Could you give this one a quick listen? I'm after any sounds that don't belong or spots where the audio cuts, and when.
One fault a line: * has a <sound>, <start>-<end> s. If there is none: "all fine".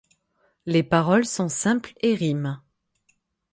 all fine